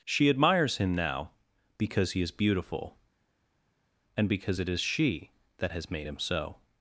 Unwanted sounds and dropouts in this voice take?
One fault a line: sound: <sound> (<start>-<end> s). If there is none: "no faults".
no faults